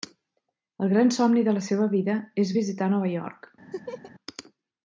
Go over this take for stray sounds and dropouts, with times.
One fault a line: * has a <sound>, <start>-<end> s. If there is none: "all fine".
* has a laugh, 3.7-4.1 s